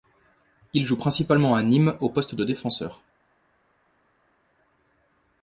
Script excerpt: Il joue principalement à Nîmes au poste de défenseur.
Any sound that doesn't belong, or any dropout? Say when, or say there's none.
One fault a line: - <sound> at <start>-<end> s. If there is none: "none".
none